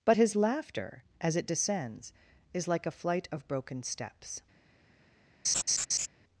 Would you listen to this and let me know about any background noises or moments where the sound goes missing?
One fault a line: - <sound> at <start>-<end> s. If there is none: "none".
- laugh at 5.4-6.1 s